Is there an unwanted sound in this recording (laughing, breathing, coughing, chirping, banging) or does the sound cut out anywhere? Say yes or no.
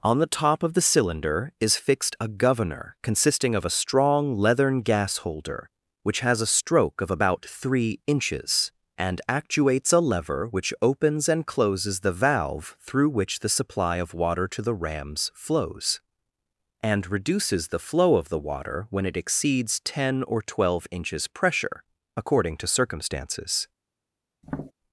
yes